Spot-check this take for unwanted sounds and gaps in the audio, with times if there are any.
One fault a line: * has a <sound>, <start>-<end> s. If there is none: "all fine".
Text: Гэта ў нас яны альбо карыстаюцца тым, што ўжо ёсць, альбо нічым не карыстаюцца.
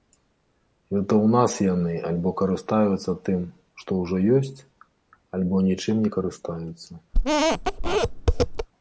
* has a squeak, 7.1-8.7 s